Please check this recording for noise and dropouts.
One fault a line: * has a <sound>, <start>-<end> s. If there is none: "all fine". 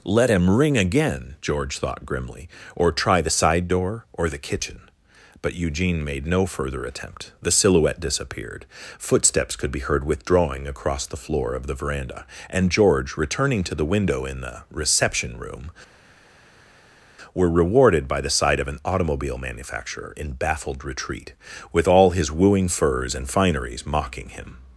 all fine